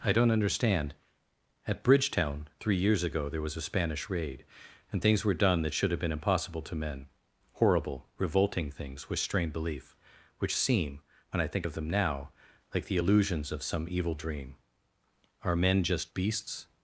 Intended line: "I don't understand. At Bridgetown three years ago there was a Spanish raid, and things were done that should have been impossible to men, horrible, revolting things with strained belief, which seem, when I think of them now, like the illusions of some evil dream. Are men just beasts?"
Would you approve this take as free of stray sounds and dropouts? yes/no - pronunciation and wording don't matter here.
yes